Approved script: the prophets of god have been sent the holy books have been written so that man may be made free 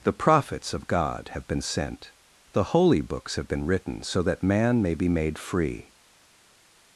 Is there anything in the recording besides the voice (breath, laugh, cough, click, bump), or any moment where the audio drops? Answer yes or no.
no